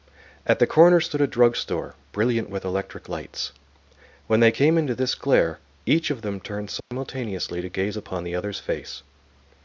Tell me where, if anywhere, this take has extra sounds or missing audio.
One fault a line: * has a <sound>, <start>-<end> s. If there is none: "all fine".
* has a dropout, 6.8-6.9 s